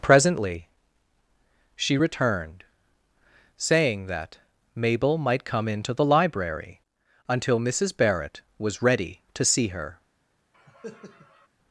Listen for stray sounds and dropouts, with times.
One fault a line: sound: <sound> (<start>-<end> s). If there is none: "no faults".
sound: cough (10.5-11.5 s)